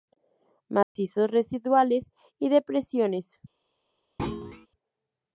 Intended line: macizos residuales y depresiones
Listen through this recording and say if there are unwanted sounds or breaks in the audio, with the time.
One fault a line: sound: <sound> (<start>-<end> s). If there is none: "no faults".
sound: dropout (0.8-1.0 s)
sound: thud (4.2-4.7 s)